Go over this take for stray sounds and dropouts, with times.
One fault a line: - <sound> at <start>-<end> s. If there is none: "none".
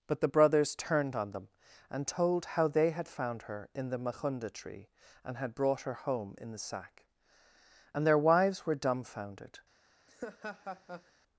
- laugh at 10.1-11.1 s